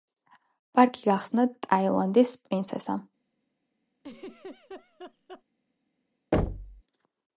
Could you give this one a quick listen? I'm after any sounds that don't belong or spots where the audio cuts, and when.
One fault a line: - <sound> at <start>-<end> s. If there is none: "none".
- laugh at 4.0-5.4 s
- thud at 6.3-6.8 s